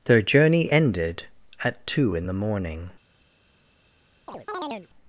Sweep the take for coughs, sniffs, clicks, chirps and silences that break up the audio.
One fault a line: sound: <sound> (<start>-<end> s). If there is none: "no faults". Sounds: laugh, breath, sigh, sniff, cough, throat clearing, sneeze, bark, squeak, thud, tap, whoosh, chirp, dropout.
sound: chirp (4.3-4.9 s)